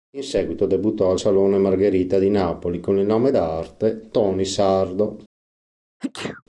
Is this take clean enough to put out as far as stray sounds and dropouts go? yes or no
no